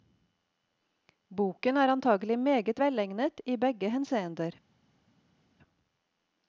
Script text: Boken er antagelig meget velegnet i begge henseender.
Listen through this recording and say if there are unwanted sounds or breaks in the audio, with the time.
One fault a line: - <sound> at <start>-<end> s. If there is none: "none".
none